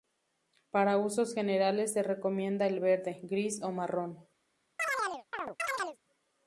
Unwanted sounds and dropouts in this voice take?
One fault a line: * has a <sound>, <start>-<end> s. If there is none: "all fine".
* has a chirp, 4.8-6.0 s